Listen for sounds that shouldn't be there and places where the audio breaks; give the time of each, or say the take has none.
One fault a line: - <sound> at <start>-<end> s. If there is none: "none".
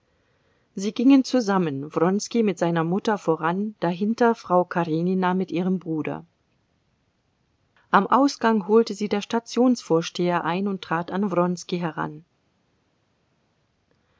none